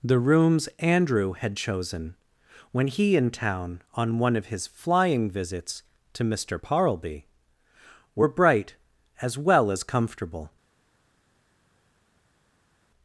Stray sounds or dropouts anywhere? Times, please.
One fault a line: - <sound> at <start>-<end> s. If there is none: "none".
none